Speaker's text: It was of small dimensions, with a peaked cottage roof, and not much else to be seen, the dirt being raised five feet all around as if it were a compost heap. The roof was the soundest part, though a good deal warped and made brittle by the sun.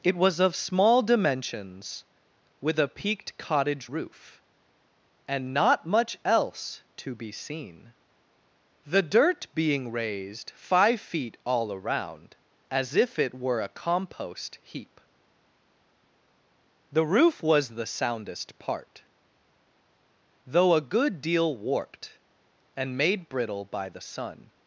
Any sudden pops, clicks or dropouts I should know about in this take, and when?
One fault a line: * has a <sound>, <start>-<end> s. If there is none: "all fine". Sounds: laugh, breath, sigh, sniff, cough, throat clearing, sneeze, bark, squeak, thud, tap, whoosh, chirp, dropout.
all fine